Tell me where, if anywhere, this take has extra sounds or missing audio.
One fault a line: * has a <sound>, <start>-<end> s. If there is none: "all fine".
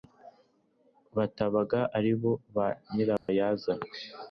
* has a dropout, 3.2-3.3 s